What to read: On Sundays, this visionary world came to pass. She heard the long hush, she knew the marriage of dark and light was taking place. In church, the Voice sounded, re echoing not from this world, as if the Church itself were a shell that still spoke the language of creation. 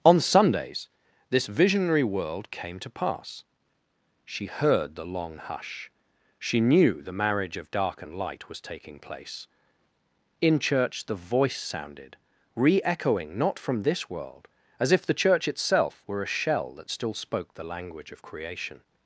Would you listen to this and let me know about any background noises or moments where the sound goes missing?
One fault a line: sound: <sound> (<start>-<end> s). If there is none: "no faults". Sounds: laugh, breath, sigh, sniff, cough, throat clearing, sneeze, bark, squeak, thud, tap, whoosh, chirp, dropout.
no faults